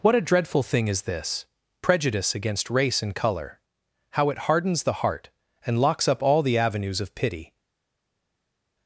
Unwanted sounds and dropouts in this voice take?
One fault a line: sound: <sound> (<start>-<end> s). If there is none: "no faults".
no faults